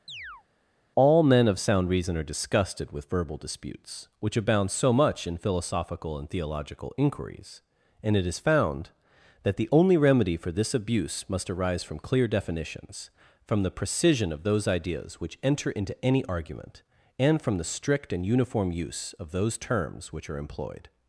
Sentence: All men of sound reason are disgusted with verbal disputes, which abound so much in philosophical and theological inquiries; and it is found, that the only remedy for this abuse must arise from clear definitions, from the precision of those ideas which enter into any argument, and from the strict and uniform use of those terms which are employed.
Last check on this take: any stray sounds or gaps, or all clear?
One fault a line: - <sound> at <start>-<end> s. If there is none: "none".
- chirp at 0.1-0.4 s